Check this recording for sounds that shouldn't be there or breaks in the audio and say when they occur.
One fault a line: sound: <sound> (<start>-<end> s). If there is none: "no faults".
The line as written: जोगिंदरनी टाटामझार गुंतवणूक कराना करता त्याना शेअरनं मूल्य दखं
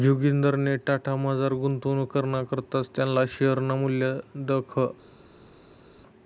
no faults